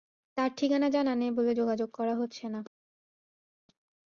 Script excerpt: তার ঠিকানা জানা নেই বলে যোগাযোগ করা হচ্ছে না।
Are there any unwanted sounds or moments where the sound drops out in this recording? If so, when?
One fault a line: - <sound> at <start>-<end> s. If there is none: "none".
none